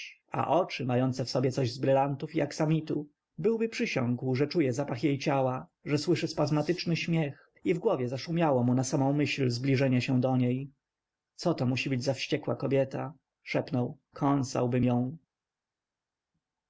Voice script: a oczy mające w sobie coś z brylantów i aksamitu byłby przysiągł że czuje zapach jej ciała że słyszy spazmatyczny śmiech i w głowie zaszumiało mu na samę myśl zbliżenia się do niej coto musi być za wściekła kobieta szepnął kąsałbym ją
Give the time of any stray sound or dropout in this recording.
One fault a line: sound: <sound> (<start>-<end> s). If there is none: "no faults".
no faults